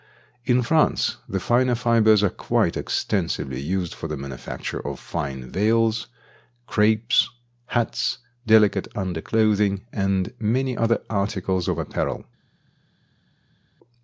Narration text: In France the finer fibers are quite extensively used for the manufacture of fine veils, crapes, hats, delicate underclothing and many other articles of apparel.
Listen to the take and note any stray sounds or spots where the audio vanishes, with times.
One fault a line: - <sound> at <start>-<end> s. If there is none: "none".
none